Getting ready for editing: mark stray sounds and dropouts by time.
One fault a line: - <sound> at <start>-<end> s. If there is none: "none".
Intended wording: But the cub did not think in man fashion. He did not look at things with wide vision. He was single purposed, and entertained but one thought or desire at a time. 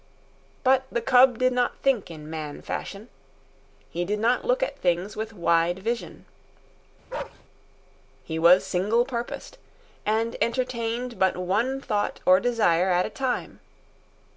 - bark at 7.1-7.4 s